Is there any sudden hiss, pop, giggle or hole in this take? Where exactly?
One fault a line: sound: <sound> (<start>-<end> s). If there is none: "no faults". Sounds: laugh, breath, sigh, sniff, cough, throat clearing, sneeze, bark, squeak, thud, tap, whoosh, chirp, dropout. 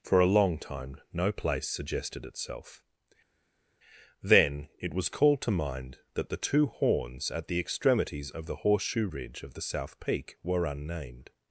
no faults